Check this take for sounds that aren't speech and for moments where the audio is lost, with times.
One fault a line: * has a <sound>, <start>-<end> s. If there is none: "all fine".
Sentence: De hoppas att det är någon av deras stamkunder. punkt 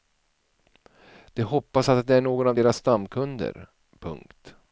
all fine